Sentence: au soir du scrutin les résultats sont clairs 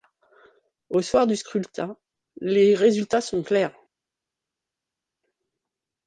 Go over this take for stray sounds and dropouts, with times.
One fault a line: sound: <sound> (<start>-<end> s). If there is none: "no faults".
no faults